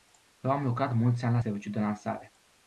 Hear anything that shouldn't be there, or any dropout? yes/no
no